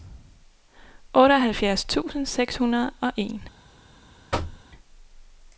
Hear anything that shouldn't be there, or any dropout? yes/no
yes